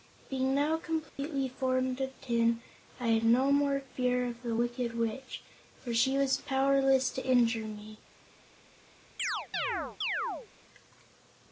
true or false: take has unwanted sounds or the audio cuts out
true